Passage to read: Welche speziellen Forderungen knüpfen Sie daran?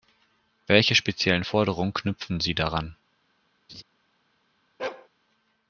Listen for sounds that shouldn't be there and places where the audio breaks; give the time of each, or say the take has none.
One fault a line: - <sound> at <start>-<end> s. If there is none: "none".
- laugh at 3.7-3.8 s
- bark at 4.8-5.1 s